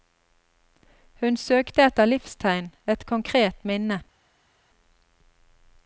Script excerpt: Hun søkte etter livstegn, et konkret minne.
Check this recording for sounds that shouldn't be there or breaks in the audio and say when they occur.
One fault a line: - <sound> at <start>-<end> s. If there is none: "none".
none